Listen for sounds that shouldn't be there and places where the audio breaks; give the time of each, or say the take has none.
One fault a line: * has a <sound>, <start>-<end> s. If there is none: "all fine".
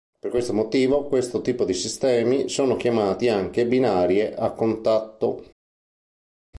all fine